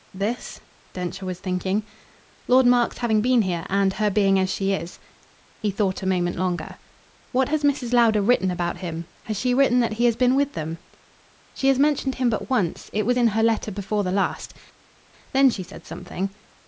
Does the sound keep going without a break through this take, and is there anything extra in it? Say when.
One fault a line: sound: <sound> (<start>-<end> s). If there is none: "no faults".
no faults